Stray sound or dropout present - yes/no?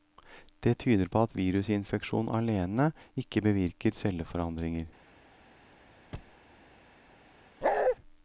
yes